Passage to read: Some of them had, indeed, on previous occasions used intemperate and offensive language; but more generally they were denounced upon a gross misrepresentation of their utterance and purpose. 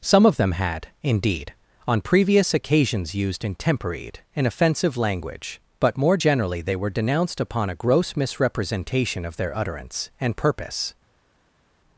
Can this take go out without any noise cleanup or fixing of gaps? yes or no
yes